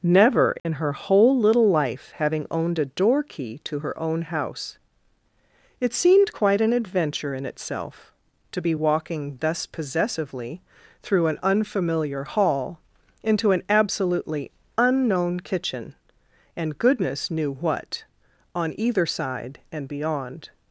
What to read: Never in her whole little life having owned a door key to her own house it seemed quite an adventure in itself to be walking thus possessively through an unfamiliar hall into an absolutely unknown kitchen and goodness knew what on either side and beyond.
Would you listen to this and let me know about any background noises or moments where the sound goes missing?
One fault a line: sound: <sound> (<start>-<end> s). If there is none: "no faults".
sound: dropout (0.6-0.7 s)